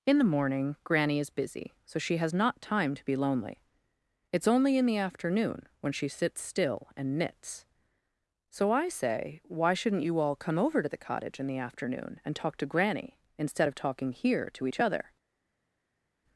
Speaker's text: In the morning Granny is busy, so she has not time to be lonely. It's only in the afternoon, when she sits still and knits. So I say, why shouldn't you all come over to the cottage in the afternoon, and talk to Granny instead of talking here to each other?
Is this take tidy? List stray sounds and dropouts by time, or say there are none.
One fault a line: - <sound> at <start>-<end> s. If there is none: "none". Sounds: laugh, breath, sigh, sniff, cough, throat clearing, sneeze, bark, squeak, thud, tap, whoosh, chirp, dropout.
none